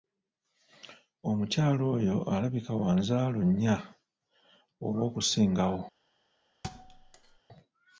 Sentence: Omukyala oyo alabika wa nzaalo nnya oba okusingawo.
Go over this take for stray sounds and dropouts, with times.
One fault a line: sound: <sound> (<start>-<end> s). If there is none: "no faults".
sound: thud (6.6-7.4 s)